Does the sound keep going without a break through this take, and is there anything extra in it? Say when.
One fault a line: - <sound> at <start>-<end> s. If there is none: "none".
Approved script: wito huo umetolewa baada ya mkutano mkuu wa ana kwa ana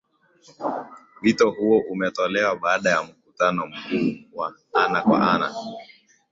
none